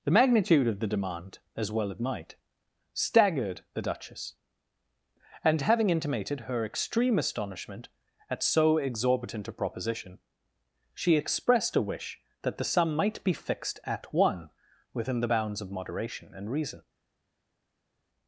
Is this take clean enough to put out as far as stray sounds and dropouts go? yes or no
yes